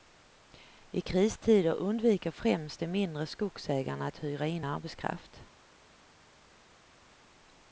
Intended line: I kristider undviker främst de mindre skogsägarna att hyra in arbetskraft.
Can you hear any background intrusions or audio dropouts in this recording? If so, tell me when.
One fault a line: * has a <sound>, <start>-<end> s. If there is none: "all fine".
all fine